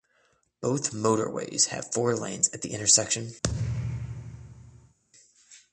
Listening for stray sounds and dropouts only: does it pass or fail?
fail